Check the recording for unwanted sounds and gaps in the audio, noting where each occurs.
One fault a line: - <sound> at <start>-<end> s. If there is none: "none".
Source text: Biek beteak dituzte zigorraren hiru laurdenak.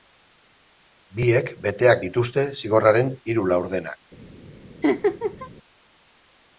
- laugh at 4.8-5.5 s